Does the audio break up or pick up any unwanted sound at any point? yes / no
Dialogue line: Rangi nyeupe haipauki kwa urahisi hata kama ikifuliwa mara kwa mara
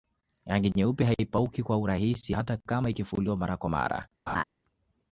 yes